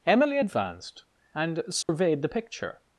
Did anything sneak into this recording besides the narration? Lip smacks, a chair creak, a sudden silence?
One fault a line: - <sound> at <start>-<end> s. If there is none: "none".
- dropout at 1.8-1.9 s